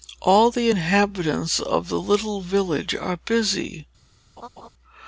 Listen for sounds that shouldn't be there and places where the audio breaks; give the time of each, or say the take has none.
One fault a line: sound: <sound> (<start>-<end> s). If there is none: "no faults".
sound: laugh (4.4-4.7 s)